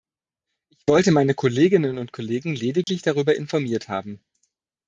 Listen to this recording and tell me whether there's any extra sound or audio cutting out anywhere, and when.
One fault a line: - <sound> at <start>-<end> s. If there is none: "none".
- dropout at 2.8-2.9 s